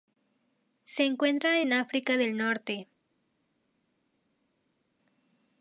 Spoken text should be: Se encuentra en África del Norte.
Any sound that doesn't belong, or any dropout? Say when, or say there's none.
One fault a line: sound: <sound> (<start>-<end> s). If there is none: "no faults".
no faults